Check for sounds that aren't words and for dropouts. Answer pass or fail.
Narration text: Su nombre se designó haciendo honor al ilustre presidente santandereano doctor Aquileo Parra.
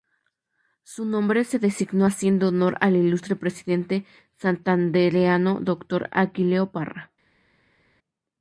pass